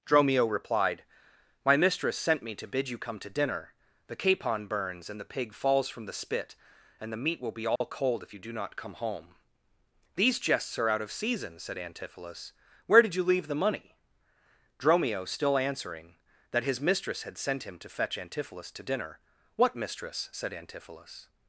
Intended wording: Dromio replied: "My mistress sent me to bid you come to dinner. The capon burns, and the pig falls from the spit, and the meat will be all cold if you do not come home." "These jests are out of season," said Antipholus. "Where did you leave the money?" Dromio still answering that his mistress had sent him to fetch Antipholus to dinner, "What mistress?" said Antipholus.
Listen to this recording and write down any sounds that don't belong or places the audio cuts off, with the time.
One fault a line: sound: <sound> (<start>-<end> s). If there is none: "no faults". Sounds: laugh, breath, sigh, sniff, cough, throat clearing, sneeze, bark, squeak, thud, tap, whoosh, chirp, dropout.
sound: dropout (7.8-7.8 s)